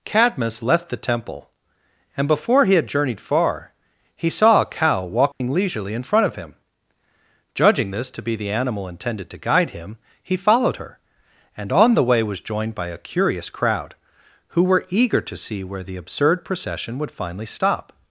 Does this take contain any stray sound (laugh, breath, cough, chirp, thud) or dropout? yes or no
yes